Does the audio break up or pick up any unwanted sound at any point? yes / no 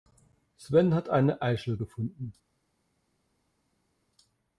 no